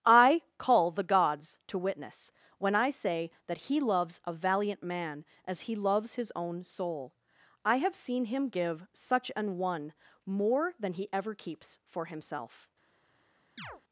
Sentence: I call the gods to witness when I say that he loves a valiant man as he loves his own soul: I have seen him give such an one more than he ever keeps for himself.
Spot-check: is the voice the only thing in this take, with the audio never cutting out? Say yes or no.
no